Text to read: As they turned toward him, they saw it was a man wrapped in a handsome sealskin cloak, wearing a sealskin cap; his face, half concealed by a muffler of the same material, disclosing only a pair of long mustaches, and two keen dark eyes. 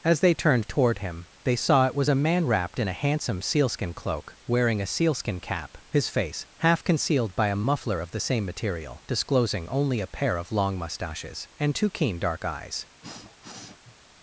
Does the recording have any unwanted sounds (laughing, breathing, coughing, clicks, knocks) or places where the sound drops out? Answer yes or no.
yes